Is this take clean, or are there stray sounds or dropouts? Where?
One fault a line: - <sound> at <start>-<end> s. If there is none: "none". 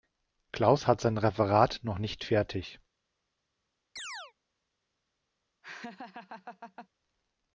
- chirp at 4.0-4.3 s
- laugh at 5.6-6.9 s